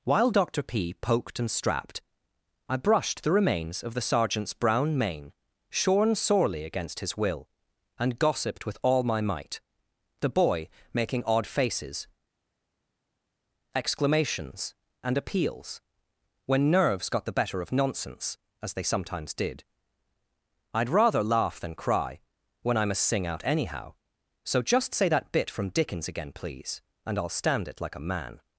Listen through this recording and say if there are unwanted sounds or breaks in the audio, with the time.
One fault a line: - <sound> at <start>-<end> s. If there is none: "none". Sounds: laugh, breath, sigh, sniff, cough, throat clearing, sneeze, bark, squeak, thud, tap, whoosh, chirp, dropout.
none